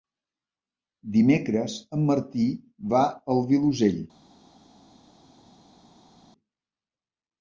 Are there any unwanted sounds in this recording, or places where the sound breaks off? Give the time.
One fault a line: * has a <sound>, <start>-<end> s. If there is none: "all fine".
all fine